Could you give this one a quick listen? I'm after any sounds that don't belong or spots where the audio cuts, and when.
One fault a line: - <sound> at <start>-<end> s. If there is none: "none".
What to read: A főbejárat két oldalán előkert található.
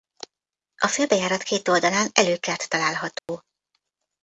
- dropout at 3.2-3.3 s